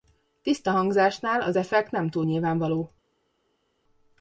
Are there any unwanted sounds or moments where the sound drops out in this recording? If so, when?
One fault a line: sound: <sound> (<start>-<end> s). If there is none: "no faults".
no faults